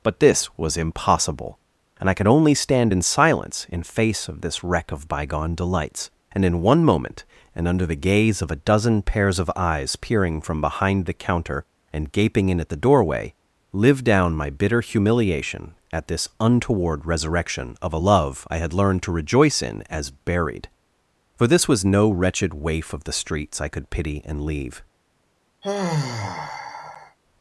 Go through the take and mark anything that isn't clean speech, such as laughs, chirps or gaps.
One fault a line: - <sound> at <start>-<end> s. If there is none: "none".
- sigh at 25.6-27.2 s